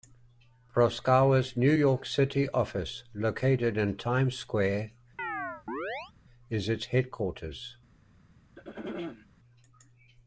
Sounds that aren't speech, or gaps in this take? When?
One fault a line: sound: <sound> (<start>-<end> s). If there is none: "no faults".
sound: chirp (5.2-6.1 s)
sound: throat clearing (8.6-9.3 s)